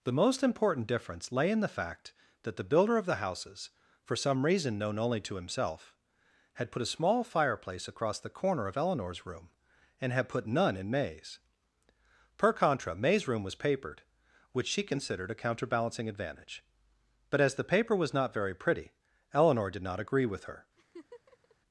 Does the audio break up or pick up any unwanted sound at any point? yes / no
yes